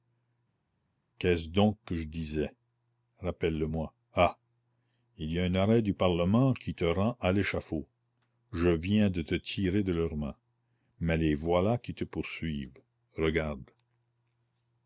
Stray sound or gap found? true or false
false